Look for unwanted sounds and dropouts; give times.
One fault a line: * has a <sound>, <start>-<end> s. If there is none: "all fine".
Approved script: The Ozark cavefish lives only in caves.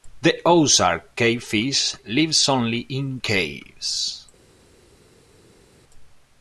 all fine